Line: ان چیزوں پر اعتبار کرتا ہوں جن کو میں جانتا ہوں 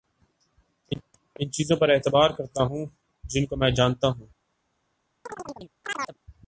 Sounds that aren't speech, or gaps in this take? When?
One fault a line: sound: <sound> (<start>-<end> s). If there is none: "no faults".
sound: chirp (5.3-6.2 s)